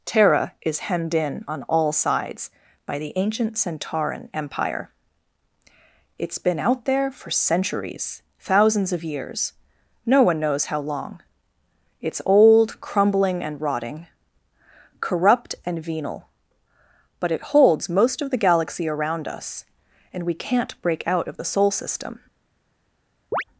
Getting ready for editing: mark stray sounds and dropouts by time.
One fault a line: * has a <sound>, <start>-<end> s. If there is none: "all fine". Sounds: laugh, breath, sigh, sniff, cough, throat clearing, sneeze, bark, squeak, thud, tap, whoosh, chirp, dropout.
* has a chirp, 23.3-23.4 s